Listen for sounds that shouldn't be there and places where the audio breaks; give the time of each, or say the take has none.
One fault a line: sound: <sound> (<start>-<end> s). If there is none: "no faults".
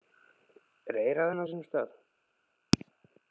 no faults